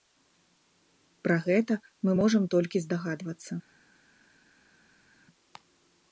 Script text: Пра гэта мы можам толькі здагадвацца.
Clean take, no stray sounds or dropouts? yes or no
yes